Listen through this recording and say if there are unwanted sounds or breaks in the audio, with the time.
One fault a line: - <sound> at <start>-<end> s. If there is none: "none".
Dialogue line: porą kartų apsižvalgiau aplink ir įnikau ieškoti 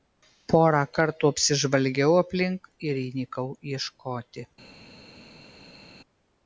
none